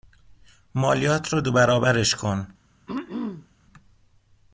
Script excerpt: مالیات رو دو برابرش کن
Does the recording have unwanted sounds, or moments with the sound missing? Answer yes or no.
yes